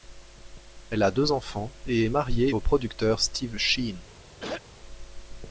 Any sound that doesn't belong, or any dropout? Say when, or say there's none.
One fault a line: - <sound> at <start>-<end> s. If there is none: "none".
- throat clearing at 4.4-4.6 s